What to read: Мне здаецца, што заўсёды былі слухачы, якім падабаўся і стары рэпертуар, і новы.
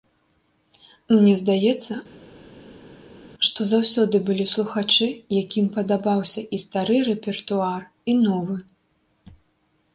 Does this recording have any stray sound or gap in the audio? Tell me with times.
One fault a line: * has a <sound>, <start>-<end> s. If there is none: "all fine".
all fine